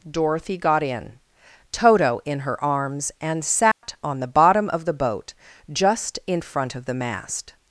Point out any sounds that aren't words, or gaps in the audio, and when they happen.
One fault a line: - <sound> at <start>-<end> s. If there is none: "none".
- dropout at 3.7-3.8 s